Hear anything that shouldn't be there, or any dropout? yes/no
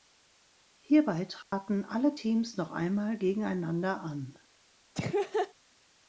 yes